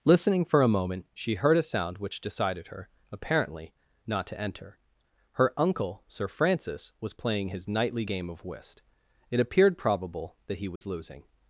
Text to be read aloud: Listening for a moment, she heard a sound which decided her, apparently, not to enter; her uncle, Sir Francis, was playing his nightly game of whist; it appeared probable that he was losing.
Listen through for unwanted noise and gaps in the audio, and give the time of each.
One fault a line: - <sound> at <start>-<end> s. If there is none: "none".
- dropout at 10.8-10.8 s